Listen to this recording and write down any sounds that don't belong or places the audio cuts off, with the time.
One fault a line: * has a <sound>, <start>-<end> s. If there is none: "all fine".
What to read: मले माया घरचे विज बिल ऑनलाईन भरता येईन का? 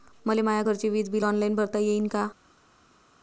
all fine